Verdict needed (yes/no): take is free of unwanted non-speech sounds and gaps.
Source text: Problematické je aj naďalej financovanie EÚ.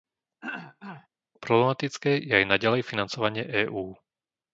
no